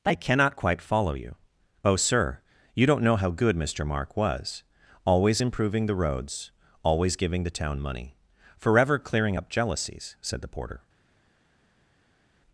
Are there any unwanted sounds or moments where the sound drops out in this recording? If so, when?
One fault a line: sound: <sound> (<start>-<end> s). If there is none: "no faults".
no faults